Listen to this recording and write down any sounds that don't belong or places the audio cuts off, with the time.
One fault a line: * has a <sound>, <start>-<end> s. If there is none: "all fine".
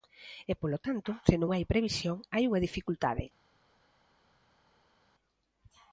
all fine